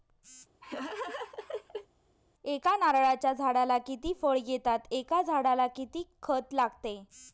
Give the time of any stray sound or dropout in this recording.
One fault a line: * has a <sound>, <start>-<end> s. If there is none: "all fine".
* has a laugh, 0.6-1.9 s